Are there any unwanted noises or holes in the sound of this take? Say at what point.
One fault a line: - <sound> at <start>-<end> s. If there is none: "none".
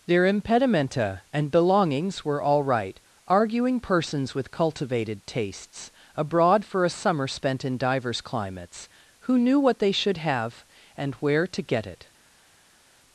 none